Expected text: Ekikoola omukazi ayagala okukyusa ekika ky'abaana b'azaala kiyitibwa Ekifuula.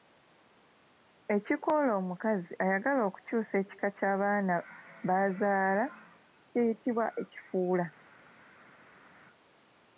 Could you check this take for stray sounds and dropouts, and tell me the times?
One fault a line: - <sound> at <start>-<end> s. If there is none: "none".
none